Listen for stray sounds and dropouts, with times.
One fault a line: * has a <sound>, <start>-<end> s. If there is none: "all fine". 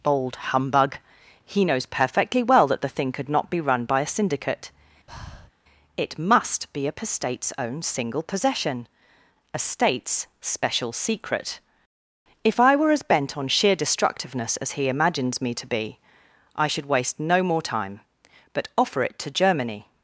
* has a breath, 5.1-5.5 s